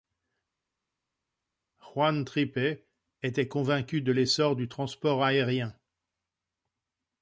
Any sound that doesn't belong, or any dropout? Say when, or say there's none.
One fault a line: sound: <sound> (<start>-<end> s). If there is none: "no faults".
no faults